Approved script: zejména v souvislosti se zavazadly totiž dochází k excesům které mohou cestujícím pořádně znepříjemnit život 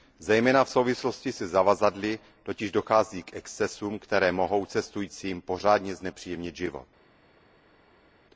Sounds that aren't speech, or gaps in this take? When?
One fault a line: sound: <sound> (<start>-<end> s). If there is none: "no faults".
no faults